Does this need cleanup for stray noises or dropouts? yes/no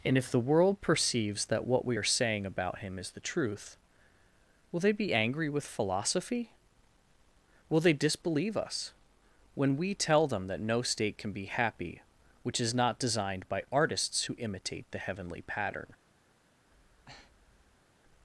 yes